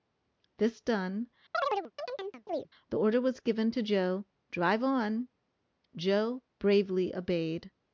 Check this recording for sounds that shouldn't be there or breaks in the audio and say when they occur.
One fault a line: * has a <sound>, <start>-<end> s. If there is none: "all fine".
* has a chirp, 1.5-2.7 s